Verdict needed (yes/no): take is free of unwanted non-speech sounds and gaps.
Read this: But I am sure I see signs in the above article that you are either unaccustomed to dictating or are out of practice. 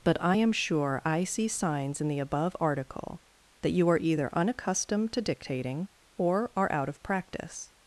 yes